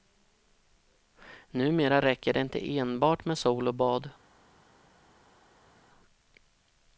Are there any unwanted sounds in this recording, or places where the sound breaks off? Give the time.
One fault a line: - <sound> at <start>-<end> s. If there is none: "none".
none